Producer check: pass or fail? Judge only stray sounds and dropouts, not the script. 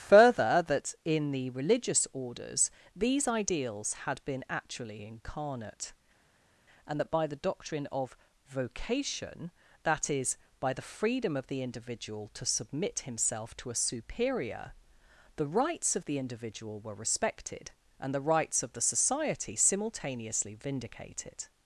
pass